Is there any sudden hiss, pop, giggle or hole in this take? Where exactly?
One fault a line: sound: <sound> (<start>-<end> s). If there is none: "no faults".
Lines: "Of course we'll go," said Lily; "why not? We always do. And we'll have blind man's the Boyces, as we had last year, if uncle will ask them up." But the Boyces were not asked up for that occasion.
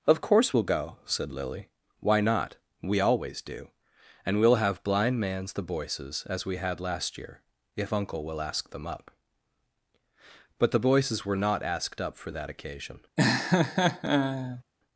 sound: laugh (13.2-14.6 s)